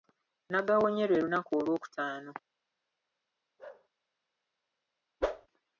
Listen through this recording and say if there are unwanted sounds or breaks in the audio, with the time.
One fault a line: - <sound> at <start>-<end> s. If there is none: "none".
- bark at 3.6-3.9 s
- whoosh at 5.2-5.5 s